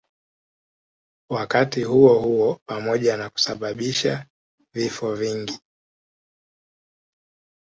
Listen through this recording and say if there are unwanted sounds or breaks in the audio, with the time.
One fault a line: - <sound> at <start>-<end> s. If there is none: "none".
none